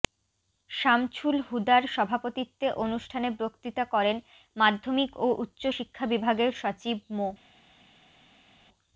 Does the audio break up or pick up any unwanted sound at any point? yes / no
no